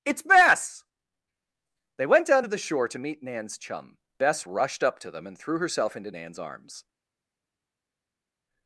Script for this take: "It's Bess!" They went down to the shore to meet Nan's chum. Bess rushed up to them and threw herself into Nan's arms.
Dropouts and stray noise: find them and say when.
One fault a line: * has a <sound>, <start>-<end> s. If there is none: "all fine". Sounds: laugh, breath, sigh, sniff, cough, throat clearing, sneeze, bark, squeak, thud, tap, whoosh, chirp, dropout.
all fine